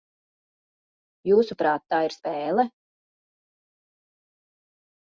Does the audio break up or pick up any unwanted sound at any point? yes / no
no